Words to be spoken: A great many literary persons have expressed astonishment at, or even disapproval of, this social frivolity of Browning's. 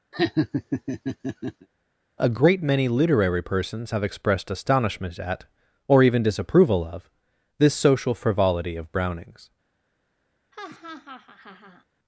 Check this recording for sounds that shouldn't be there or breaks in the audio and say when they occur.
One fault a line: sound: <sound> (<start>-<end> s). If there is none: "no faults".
sound: laugh (0.1-1.7 s)
sound: laugh (10.5-11.8 s)